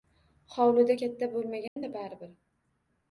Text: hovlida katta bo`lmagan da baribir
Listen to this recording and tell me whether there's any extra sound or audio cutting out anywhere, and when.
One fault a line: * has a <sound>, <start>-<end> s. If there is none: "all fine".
* has a dropout, 1.7-1.8 s